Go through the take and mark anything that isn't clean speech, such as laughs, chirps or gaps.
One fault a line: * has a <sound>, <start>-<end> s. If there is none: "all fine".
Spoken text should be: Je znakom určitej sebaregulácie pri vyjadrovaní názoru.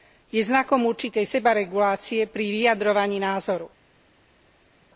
all fine